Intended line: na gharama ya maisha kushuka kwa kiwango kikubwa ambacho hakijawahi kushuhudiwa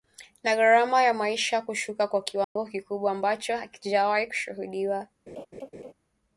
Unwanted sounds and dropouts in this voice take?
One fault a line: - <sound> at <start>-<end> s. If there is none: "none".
- dropout at 2.4-2.6 s
- laugh at 5.3-5.9 s